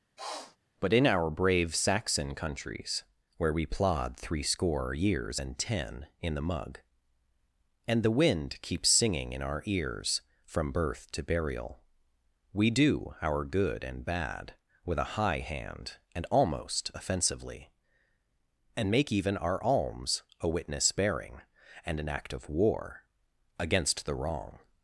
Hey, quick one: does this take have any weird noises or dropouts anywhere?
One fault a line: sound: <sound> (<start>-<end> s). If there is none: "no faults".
sound: sniff (0.2-0.6 s)